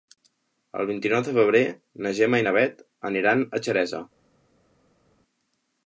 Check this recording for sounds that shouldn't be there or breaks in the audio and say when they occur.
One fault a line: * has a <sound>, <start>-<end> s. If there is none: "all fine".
all fine